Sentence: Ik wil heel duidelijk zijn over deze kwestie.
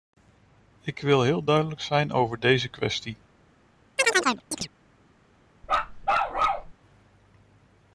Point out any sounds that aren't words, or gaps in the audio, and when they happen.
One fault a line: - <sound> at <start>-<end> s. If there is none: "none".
- chirp at 4.0-4.7 s
- bark at 5.6-6.7 s